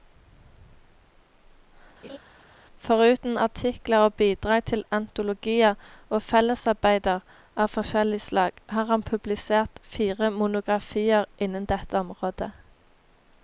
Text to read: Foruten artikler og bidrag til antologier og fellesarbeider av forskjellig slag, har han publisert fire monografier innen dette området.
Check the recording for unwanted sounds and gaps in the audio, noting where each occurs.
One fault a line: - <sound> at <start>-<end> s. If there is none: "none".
- laugh at 2.0-2.2 s